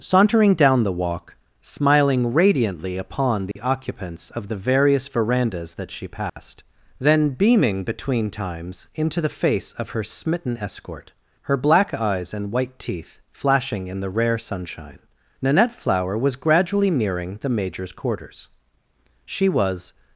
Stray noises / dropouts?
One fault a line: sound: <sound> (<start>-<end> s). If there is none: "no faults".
sound: dropout (3.5-3.6 s)
sound: dropout (6.3-6.4 s)